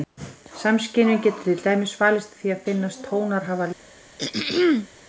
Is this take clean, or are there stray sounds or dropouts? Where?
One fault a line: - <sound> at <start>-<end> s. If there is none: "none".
- throat clearing at 4.2-4.9 s